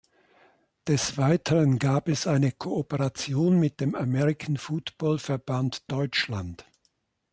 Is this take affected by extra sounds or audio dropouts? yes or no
no